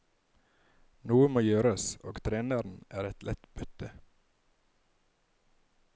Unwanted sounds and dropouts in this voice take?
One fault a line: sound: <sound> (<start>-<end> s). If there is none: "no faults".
no faults